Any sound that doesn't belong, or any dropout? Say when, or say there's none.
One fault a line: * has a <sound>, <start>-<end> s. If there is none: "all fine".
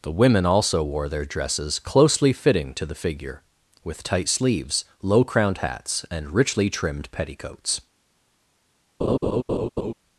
* has a laugh, 9.0-9.9 s